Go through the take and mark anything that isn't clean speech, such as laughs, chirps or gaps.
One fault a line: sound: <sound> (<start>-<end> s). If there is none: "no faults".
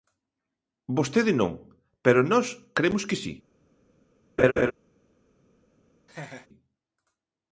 sound: laugh (4.4-4.7 s)
sound: laugh (6.1-6.5 s)